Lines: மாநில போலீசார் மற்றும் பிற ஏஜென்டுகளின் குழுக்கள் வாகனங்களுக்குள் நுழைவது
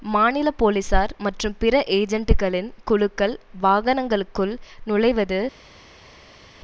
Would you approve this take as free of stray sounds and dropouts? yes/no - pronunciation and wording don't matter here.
yes